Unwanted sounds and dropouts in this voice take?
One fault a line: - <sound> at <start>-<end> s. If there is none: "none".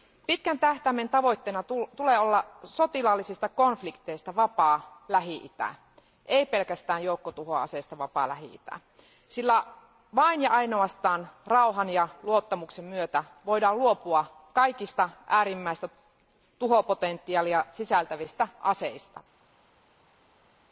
none